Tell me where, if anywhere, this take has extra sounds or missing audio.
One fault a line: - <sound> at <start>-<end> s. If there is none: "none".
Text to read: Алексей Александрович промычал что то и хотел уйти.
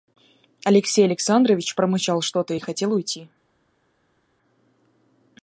none